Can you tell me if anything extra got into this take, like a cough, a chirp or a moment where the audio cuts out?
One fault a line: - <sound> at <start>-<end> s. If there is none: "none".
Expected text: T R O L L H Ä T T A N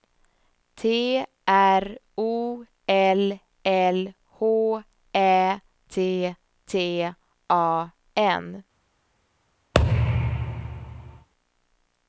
- thud at 9.7-11.3 s